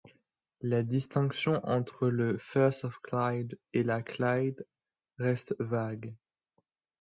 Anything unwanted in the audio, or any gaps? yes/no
no